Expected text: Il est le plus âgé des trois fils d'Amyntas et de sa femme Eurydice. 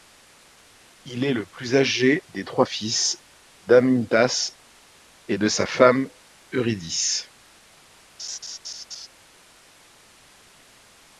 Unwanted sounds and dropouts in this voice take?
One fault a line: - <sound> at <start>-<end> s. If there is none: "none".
- laugh at 8.2-9.1 s